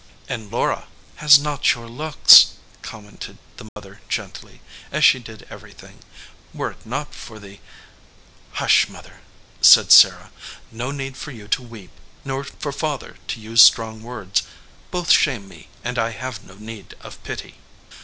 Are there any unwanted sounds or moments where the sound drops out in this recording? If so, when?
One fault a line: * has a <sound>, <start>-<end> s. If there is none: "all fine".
* has a dropout, 3.7-3.8 s